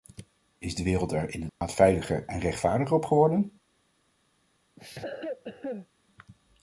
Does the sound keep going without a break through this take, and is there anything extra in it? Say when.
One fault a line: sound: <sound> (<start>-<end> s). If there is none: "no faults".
sound: dropout (1.5-1.6 s)
sound: cough (4.8-5.9 s)